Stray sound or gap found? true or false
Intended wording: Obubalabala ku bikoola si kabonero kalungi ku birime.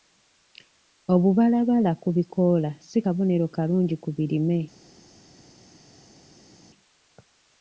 false